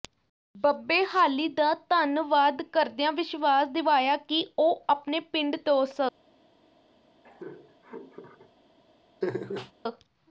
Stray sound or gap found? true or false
true